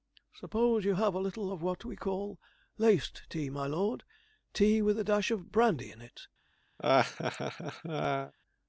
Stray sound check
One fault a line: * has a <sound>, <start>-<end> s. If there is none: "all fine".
* has a laugh, 6.8-8.3 s